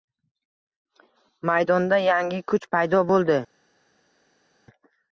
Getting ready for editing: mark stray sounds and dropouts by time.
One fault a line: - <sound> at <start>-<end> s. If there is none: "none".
none